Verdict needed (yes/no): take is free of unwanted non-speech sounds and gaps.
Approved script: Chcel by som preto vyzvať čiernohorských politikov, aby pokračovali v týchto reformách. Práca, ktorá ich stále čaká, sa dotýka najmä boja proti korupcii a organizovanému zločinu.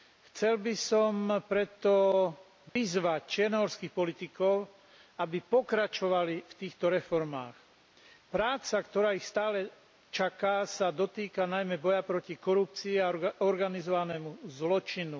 no